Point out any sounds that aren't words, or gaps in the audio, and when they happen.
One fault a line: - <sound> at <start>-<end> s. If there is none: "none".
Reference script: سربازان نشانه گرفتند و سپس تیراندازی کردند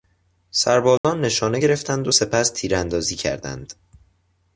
- dropout at 1.0-1.0 s